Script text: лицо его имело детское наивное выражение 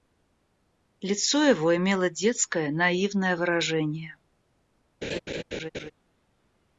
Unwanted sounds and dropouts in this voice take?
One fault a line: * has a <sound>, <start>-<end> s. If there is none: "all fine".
* has a laugh, 5.0-5.9 s